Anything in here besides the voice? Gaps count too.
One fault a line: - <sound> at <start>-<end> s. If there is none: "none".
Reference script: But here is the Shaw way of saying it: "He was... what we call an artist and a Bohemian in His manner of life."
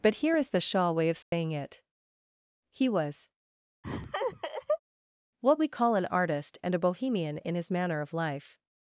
- dropout at 1.2-1.3 s
- laugh at 3.8-4.8 s